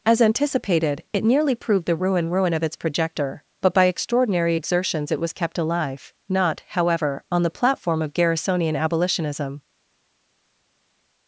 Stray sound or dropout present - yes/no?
no